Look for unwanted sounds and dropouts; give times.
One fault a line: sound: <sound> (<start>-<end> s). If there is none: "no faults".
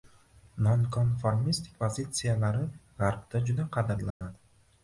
sound: dropout (4.1-4.2 s)